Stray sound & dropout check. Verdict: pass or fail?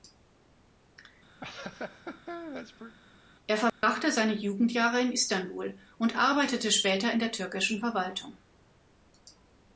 fail